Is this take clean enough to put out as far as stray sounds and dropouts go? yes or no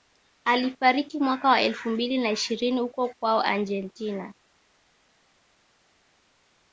yes